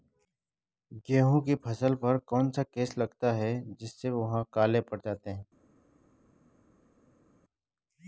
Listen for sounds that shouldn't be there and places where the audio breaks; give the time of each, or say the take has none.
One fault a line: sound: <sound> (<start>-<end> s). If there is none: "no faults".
no faults